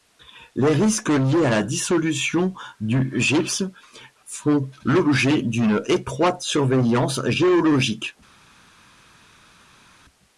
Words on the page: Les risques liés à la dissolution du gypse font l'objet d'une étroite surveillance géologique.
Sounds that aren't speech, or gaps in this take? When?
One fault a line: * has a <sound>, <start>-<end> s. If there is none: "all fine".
all fine